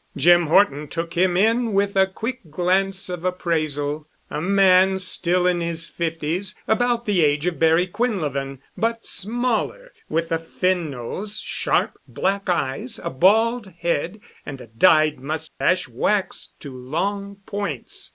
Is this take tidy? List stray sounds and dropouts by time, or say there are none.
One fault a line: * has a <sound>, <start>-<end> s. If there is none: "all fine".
* has a dropout, 15.5-15.6 s